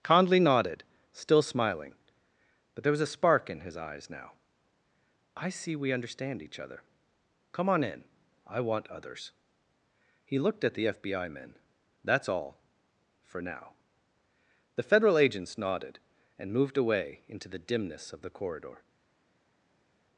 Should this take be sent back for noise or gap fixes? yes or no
no